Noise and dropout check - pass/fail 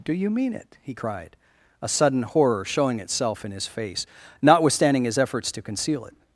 pass